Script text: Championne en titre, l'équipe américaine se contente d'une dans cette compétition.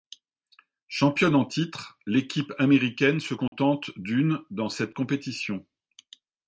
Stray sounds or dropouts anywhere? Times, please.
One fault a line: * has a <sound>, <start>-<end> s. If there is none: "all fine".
* has a dropout, 3.5-3.5 s